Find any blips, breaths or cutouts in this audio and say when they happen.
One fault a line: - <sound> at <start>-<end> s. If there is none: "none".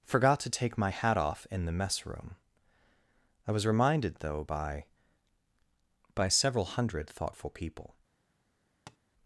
- tap at 8.9-9.0 s